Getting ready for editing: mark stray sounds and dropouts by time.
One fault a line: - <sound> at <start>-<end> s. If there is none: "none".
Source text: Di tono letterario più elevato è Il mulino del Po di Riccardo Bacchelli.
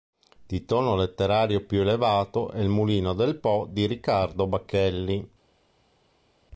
none